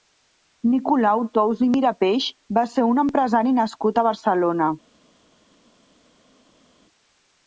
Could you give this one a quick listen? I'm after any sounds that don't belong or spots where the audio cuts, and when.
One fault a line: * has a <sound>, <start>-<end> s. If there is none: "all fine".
all fine